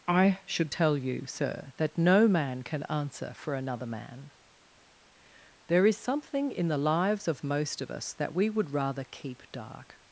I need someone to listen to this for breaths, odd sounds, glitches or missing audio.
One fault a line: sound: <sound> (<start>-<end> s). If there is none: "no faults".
no faults